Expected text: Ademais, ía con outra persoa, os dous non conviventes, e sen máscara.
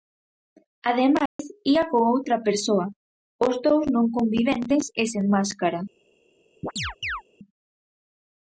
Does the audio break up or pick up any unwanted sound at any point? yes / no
yes